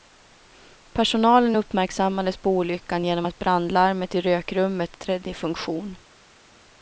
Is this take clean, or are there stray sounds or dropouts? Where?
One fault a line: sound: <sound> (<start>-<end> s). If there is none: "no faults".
no faults